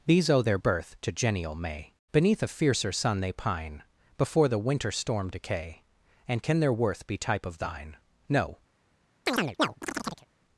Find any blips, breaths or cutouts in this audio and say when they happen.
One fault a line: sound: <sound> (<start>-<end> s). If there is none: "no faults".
sound: chirp (9.3-10.3 s)